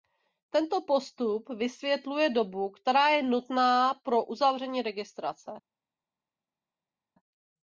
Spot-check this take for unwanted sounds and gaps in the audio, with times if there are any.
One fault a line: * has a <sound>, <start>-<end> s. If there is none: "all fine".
all fine